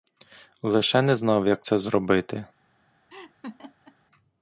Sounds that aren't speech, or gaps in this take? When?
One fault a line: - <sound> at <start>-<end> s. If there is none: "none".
- laugh at 3.1-4.0 s